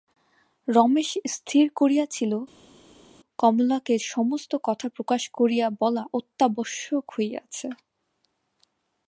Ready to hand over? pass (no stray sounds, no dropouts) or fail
pass